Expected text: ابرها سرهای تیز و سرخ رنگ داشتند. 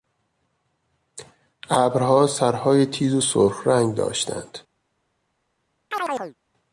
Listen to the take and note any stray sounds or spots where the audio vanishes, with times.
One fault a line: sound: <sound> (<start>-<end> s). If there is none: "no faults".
sound: chirp (5.9-6.3 s)